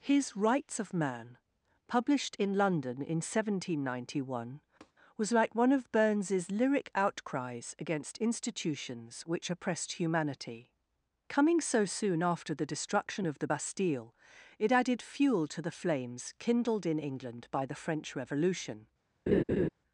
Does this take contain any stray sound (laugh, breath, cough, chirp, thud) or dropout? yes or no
yes